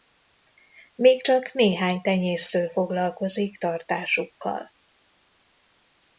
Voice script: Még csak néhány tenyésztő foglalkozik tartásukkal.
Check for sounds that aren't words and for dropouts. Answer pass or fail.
pass